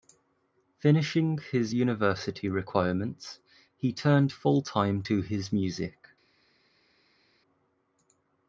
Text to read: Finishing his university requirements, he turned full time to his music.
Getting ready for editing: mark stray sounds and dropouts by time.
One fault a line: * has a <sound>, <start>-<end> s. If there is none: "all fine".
all fine